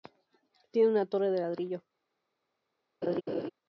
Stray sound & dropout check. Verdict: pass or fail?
fail